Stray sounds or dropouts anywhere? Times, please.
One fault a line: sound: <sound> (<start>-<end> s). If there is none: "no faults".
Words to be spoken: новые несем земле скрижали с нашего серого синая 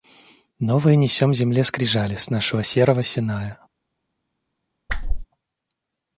sound: whoosh (4.9-5.3 s)